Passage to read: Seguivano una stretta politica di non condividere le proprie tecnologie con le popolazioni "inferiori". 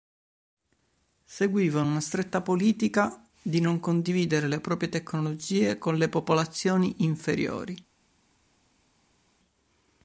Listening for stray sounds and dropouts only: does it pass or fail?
pass